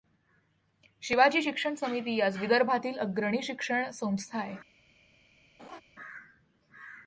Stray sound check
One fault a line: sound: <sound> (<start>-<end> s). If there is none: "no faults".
sound: laugh (5.6-5.8 s)